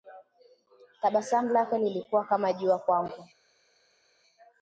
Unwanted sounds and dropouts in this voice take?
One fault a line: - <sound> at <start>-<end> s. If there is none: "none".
none